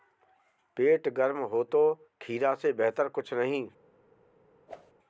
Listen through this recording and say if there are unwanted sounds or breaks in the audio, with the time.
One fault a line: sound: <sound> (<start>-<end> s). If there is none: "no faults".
sound: whoosh (4.7-4.9 s)